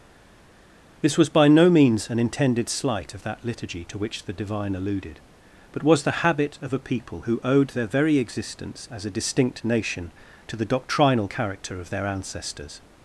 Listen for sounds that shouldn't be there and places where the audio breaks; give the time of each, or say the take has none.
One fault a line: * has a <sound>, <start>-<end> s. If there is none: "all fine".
all fine